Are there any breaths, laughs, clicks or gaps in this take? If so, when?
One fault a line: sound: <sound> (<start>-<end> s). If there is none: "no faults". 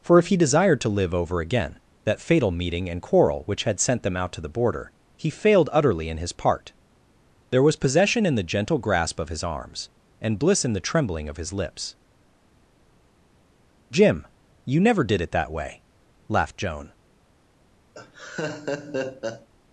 sound: laugh (17.9-19.5 s)